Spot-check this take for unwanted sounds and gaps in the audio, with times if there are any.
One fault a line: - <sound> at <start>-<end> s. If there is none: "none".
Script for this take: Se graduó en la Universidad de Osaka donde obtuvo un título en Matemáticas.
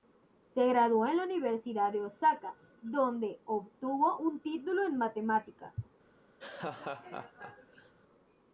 - laugh at 6.4-7.9 s